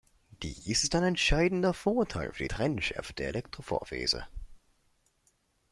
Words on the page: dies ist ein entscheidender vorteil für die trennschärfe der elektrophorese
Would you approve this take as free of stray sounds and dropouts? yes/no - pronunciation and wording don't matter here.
yes